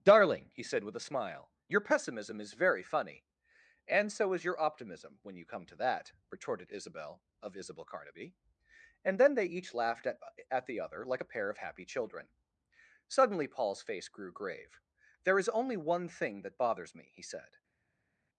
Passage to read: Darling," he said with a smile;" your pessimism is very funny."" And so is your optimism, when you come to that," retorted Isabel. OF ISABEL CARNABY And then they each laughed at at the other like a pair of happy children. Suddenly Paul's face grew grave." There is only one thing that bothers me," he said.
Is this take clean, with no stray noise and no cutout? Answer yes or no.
yes